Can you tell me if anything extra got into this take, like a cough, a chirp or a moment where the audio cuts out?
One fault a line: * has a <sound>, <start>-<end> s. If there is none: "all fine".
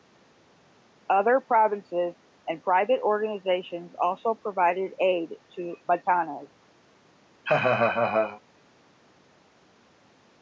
* has a laugh, 7.4-8.4 s